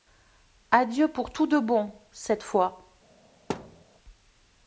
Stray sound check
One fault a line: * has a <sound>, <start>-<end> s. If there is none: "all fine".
* has a thud, 3.5-3.8 s